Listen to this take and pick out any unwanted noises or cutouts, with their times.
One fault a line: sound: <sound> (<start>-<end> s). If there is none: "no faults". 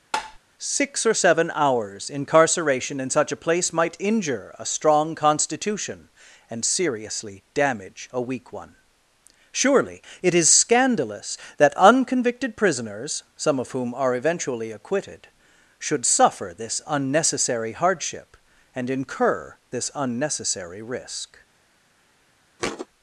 sound: tap (0.1-0.4 s)
sound: thud (22.6-22.9 s)